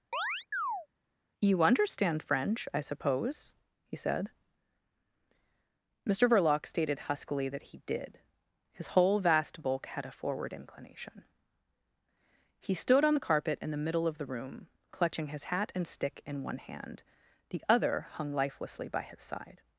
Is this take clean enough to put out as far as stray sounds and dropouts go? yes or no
no